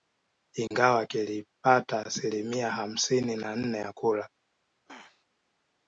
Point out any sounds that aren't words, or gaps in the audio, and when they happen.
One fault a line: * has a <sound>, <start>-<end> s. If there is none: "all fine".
* has a dropout, 0.7-0.7 s
* has a throat clearing, 4.9-5.3 s